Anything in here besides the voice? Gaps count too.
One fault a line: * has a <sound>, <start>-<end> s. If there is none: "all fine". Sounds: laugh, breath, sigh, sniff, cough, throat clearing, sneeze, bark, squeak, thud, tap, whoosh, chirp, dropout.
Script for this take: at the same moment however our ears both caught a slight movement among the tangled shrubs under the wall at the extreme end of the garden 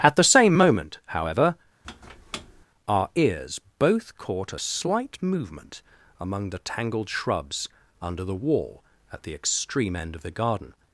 * has a squeak, 1.8-2.7 s